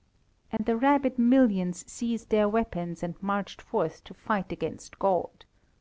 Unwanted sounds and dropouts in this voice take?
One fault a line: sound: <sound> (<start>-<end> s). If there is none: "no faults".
sound: dropout (0.6-0.6 s)